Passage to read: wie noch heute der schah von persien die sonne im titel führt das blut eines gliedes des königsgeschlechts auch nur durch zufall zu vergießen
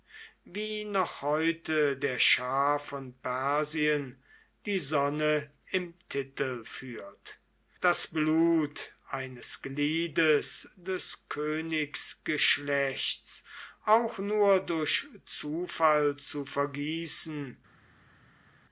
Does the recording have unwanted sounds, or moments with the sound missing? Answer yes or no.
no